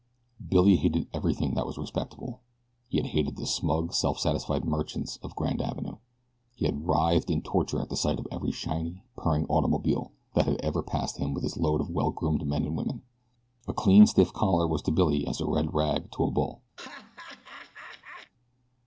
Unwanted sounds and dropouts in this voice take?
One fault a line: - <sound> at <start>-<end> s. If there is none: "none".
- laugh at 16.8-18.3 s